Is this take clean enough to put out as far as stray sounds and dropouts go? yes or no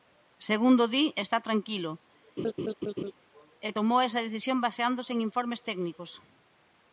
no